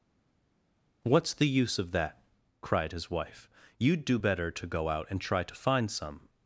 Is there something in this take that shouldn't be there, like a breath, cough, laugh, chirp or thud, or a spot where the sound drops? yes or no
no